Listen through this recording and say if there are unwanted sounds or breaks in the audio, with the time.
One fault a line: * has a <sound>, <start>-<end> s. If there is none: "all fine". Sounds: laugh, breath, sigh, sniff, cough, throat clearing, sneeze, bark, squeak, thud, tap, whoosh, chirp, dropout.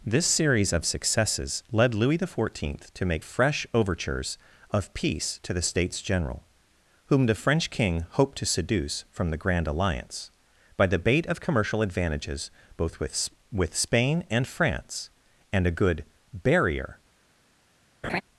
* has a laugh, 18.0-18.2 s